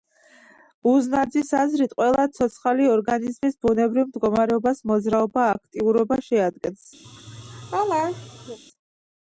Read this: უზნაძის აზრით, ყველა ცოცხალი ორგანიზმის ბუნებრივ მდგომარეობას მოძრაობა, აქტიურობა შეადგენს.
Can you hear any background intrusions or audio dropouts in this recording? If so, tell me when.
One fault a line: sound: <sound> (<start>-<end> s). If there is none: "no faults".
sound: laugh (7.0-8.6 s)